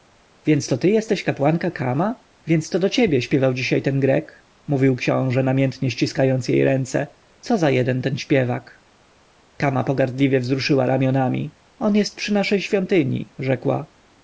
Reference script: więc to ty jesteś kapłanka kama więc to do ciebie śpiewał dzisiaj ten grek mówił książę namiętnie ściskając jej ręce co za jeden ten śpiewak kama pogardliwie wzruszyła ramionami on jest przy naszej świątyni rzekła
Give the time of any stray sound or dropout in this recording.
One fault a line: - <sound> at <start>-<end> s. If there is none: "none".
none